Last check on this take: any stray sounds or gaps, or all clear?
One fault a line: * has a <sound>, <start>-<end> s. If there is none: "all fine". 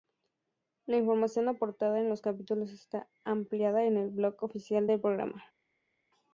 all fine